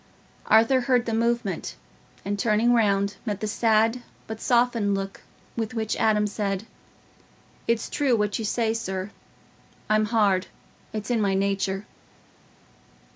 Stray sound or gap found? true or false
false